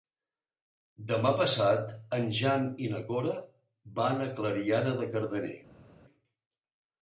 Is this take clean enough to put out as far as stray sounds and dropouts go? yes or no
yes